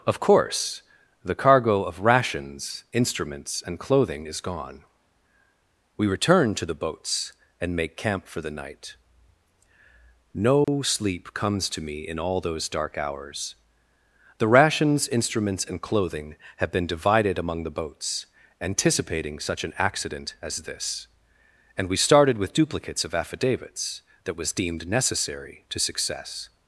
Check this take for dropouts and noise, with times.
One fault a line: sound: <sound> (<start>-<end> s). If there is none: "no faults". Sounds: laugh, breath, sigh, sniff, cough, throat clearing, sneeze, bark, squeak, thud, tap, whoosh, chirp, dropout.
sound: dropout (10.6-10.7 s)